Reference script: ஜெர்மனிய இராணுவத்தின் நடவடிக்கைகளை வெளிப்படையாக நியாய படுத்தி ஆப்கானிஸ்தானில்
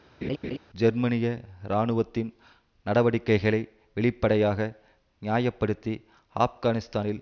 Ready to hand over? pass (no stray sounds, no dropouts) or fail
fail